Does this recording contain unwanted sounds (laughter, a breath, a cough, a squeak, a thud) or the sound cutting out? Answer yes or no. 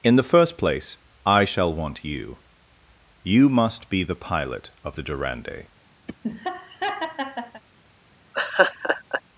yes